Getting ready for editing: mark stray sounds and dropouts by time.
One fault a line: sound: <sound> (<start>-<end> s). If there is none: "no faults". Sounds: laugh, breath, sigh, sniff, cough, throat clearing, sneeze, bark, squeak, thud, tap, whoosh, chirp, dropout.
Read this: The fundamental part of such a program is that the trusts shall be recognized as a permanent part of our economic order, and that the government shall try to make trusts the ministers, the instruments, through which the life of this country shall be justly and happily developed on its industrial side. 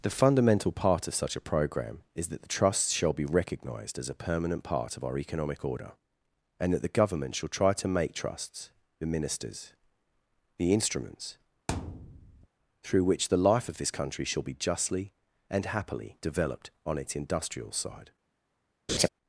sound: thud (11.7-12.5 s)
sound: laugh (18.9-19.1 s)